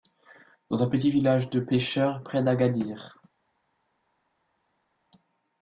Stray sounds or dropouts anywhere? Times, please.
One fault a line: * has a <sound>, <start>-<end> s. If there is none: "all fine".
all fine